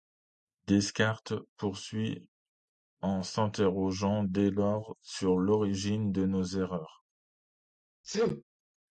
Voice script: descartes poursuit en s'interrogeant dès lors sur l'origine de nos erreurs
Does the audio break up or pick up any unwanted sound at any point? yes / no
yes